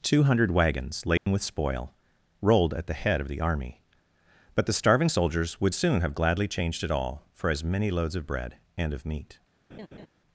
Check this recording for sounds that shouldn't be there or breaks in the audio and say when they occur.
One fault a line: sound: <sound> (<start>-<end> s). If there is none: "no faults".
sound: dropout (1.2-1.3 s)
sound: laugh (9.7-10.1 s)